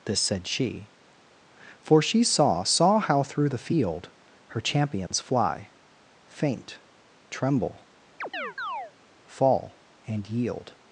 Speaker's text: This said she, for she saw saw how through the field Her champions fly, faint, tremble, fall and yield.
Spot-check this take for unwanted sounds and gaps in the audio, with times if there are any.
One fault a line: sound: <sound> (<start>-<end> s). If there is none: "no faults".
sound: dropout (5.1-5.1 s)
sound: chirp (8.2-8.9 s)